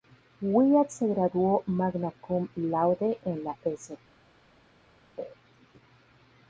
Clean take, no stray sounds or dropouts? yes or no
yes